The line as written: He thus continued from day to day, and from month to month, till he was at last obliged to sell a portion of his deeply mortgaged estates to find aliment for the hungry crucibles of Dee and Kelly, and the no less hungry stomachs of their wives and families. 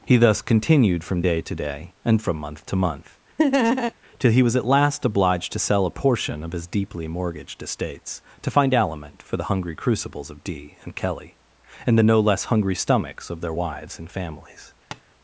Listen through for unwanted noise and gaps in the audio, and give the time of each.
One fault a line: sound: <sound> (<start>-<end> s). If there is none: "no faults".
sound: laugh (3.4-3.9 s)
sound: tap (14.9-15.0 s)